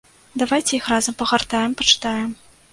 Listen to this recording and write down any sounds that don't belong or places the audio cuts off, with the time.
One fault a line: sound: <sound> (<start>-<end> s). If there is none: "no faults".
no faults